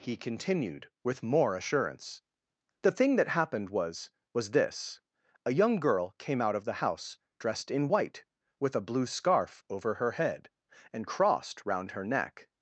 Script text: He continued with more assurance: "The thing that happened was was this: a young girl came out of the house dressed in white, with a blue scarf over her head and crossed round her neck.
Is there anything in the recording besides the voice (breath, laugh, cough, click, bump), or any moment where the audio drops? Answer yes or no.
no